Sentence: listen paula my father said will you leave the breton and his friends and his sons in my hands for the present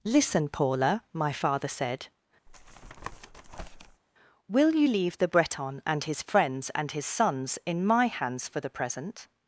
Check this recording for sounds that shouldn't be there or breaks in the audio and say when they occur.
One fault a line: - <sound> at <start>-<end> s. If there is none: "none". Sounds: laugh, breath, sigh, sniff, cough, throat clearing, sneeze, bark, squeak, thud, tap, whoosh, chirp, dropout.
- tap at 2.5-4.0 s